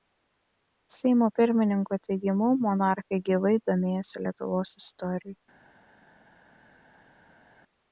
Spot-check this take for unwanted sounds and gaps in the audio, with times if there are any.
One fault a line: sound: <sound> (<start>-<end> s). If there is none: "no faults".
no faults